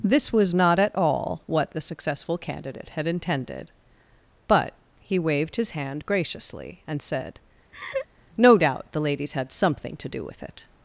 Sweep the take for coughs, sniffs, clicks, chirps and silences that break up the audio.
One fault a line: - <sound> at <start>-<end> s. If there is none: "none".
- laugh at 7.7-8.1 s